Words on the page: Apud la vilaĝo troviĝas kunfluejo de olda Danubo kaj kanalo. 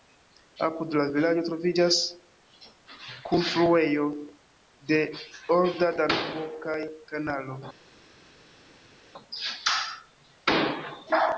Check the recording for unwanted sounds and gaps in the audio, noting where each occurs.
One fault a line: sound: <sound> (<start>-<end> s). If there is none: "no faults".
no faults